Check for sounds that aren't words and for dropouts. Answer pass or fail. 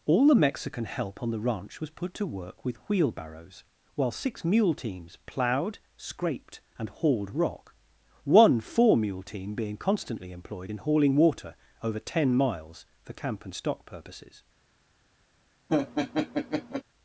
fail